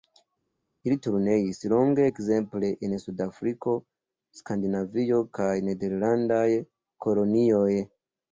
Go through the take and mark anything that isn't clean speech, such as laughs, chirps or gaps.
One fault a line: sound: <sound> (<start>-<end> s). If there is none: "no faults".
no faults